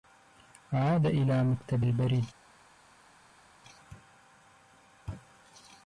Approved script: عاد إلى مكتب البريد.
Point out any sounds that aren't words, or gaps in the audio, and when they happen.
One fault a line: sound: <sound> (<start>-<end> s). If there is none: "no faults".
no faults